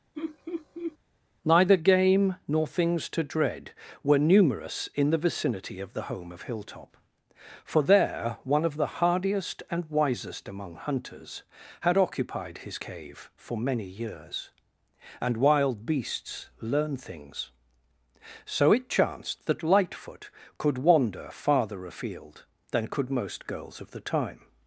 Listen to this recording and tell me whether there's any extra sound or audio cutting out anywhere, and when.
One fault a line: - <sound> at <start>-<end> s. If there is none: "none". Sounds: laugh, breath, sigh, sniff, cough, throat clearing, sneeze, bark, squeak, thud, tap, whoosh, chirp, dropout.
- laugh at 0.1-1.0 s